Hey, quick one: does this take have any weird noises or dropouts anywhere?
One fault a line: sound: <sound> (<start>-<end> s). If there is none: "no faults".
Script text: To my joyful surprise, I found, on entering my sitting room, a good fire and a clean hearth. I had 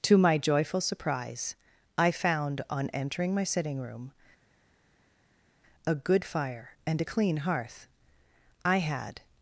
no faults